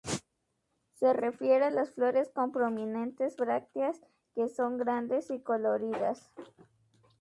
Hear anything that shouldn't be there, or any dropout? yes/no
no